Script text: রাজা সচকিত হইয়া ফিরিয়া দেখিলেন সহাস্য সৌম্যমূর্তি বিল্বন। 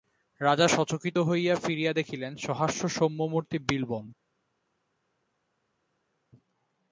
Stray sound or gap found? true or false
false